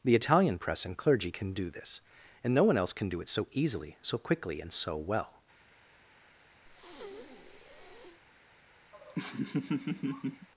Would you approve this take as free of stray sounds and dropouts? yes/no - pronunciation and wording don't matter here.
no